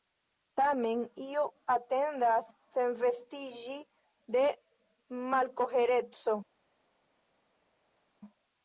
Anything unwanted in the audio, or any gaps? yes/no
no